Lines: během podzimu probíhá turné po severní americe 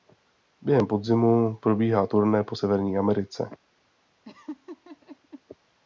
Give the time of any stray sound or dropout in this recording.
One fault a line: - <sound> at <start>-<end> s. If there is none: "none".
- laugh at 4.2-5.4 s